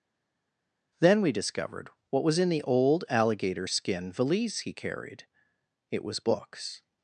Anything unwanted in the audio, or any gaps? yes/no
no